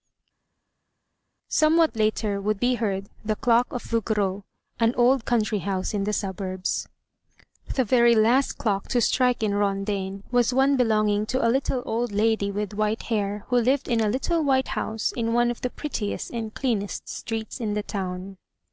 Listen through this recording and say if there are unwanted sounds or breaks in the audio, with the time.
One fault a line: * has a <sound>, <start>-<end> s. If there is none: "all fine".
all fine